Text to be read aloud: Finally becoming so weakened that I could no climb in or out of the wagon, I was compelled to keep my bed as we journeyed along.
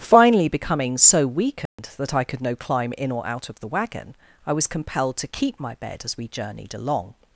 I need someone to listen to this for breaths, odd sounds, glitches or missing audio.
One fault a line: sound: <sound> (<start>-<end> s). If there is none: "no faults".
sound: dropout (1.7-1.8 s)